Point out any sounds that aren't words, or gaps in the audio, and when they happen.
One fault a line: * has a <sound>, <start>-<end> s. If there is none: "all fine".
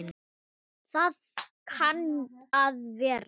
all fine